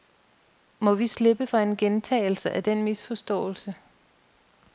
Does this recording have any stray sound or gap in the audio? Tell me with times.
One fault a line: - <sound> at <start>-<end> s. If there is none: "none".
none